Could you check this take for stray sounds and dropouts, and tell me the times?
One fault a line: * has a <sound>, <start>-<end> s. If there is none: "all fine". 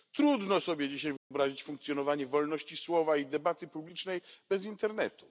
* has a dropout, 1.2-1.3 s